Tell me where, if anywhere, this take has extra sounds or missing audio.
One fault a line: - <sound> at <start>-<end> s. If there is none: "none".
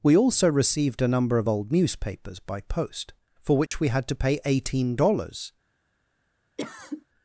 - dropout at 3.7-3.7 s
- cough at 6.6-7.1 s